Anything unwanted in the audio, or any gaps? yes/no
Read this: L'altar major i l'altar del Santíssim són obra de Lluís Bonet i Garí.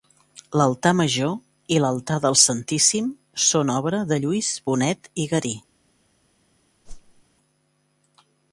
yes